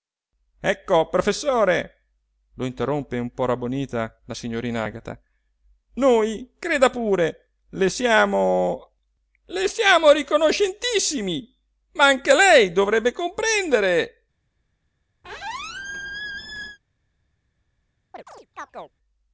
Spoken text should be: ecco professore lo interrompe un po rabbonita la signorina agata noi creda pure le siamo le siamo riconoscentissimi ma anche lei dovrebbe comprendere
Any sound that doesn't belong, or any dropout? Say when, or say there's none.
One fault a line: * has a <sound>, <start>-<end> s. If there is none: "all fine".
* has a squeak, 15.2-16.8 s
* has a chirp, 18.1-18.9 s